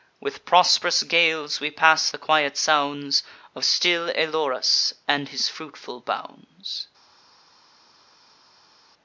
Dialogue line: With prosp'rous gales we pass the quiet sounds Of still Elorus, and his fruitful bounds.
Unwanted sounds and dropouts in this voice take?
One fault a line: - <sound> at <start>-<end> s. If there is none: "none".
none